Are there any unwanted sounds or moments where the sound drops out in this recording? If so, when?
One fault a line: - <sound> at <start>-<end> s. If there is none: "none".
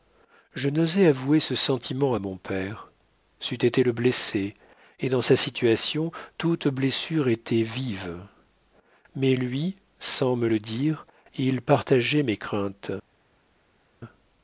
none